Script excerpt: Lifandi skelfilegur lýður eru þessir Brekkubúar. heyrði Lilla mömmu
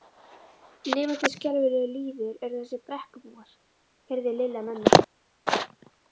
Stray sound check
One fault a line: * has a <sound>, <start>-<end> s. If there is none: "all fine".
all fine